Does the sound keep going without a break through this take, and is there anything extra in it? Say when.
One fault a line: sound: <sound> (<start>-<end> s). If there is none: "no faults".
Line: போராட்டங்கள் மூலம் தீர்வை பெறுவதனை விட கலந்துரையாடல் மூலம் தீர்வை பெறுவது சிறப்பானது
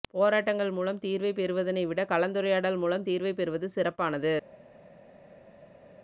no faults